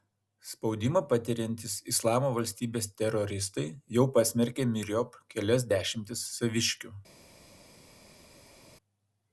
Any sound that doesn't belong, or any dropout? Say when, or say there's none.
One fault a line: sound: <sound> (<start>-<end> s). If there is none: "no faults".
no faults